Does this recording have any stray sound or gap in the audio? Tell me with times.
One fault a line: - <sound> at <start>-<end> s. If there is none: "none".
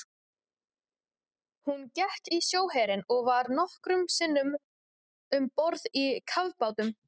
none